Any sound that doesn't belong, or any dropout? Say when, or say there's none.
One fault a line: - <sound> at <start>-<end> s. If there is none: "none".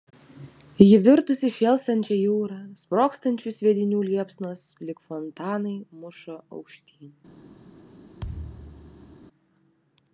- thud at 8.2-9.2 s